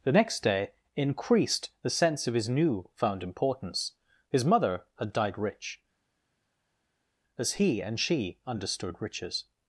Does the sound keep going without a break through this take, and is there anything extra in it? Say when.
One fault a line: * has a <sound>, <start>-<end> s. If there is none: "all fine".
all fine